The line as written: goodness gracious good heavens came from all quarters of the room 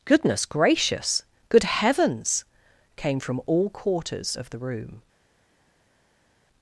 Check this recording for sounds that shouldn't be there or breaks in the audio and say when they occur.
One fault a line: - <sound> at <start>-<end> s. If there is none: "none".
none